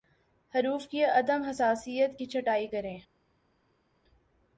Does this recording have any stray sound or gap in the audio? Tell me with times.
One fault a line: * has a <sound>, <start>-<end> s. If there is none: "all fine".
all fine